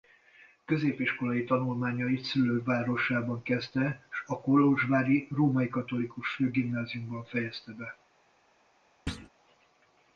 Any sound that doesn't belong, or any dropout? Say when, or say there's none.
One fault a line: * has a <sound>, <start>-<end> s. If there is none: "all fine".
* has a thud, 9.1-9.3 s